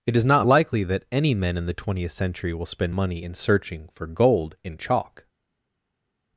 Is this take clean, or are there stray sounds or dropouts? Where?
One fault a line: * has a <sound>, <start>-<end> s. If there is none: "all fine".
all fine